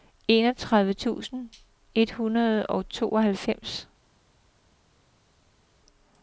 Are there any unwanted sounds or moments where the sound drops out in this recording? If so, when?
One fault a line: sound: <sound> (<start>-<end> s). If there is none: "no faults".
no faults